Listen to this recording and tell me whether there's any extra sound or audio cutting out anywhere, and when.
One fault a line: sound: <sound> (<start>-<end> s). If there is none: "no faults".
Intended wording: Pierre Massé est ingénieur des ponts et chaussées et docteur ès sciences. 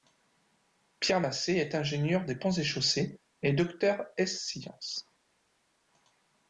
no faults